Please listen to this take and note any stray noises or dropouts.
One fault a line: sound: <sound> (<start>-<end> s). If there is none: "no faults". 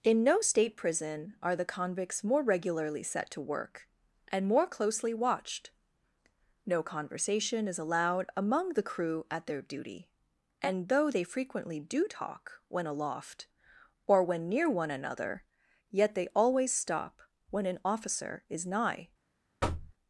sound: thud (19.6-19.9 s)